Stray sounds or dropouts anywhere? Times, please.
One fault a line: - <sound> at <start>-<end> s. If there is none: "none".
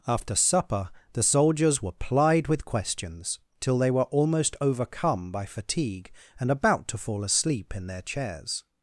none